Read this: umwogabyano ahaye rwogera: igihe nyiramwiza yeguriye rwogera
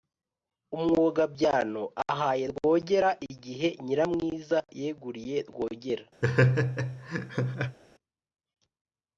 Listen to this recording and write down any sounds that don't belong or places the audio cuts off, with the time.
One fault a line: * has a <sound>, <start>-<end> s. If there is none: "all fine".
* has a laugh, 6.2-7.8 s